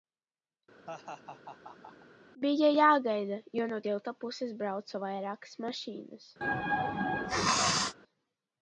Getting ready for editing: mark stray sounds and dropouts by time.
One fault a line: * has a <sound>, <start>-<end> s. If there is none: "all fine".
* has a laugh, 0.9-2.1 s
* has a sneeze, 6.4-7.9 s